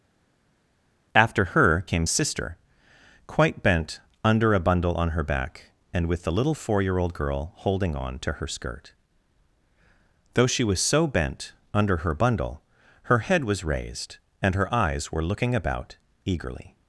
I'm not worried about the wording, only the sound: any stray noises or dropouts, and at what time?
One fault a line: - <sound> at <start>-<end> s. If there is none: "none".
none